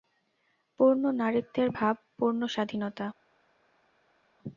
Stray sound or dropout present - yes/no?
no